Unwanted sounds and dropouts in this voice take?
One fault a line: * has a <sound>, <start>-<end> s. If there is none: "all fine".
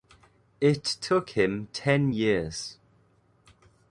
all fine